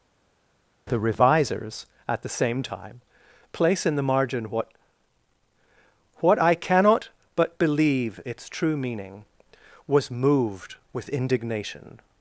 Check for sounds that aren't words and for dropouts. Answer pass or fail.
pass